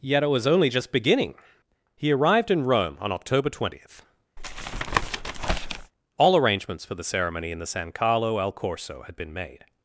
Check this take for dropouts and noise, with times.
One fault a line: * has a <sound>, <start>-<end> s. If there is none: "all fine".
* has a tap, 4.4-5.9 s